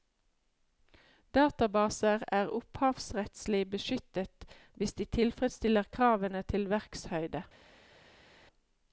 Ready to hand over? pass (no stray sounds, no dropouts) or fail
pass